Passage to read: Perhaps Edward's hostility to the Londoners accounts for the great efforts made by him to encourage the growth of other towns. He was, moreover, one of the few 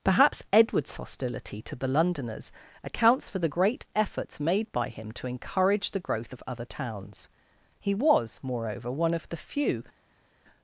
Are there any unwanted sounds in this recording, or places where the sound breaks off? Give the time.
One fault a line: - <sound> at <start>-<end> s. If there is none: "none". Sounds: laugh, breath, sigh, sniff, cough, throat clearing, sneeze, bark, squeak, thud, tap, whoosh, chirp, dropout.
none